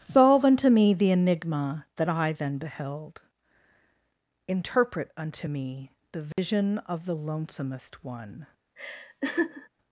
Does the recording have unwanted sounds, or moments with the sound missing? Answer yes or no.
yes